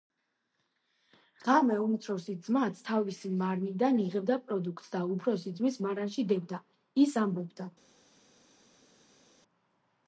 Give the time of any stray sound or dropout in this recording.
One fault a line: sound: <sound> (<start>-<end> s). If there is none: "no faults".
no faults